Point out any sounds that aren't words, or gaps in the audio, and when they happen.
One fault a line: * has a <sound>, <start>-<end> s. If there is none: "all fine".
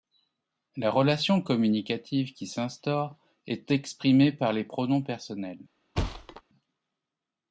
* has a thud, 6.0-6.4 s